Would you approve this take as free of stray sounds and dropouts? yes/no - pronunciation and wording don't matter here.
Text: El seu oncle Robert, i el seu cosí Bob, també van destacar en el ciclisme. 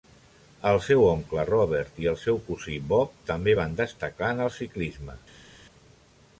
yes